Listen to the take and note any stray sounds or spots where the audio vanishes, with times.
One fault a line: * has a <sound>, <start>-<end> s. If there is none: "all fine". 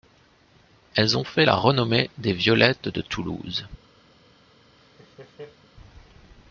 * has a laugh, 4.8-5.7 s